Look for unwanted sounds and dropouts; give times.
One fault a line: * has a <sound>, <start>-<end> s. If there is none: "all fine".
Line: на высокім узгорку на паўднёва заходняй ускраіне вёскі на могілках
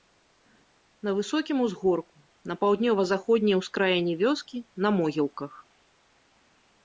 all fine